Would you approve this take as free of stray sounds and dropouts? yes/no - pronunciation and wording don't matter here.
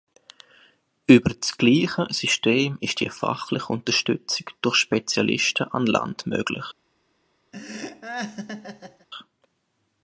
no